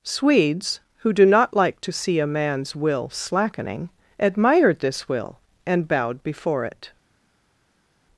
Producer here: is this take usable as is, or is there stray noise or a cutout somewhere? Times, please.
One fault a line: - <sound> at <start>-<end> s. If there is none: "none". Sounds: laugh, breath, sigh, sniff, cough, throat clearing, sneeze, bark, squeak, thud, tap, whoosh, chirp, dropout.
none